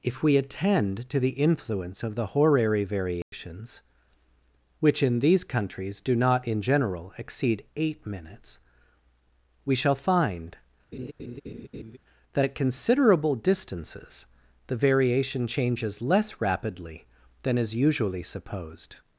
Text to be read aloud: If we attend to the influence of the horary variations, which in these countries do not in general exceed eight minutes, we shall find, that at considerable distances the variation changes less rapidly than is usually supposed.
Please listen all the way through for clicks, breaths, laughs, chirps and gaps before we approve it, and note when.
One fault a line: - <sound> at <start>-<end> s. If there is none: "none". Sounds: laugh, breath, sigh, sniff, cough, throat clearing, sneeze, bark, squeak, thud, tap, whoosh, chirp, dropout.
- dropout at 3.2-3.3 s
- laugh at 10.9-12.0 s